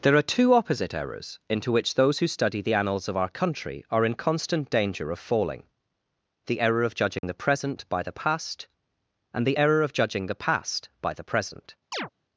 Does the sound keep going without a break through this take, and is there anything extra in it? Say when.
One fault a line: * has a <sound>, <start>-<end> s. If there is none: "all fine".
* has a dropout, 7.2-7.2 s
* has a chirp, 11.9-12.1 s